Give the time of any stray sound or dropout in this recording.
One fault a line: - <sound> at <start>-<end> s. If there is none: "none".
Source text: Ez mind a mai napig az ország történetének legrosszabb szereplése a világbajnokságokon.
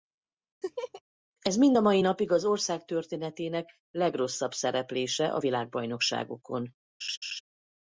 - laugh at 0.6-1.0 s
- laugh at 7.0-7.4 s